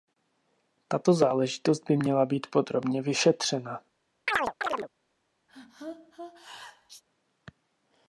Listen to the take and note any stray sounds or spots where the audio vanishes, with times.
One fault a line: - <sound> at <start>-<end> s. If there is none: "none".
- chirp at 4.3-4.9 s
- sneeze at 5.5-7.0 s